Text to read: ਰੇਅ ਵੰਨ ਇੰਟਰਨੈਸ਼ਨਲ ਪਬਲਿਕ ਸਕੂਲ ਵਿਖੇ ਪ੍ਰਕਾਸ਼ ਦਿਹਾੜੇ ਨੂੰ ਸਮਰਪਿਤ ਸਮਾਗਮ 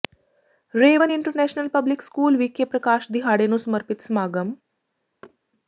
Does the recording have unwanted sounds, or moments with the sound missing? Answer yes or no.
yes